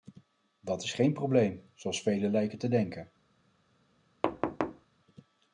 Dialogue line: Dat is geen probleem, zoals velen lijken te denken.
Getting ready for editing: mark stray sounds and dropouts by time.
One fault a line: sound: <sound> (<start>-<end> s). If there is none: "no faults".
sound: thud (4.2-4.9 s)